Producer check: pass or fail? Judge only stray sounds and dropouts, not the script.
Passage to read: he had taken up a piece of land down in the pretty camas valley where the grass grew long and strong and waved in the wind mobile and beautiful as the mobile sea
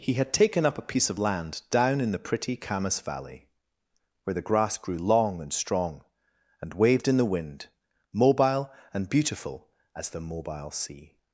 pass